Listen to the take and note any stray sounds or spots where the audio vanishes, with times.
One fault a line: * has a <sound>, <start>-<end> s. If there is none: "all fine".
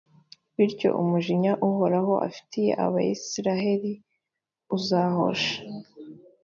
all fine